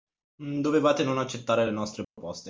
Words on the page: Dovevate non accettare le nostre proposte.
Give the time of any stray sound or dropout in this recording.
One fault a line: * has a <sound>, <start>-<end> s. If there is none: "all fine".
* has a dropout, 2.0-2.2 s